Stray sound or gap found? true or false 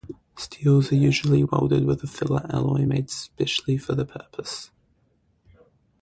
false